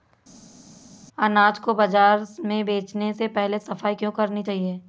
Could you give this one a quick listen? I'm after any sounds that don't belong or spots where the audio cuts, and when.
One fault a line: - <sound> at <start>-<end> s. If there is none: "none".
none